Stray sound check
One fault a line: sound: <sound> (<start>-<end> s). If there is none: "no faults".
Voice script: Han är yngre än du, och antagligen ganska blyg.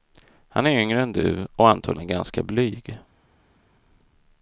no faults